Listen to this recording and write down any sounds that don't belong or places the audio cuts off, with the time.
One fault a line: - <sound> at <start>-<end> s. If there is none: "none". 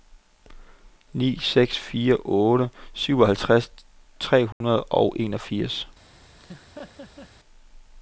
- dropout at 4.5-4.6 s
- laugh at 6.4-7.3 s